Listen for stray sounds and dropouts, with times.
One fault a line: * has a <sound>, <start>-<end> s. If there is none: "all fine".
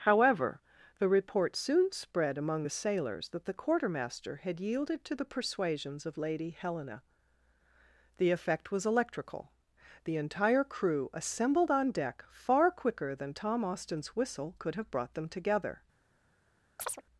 * has a chirp, 16.8-17.0 s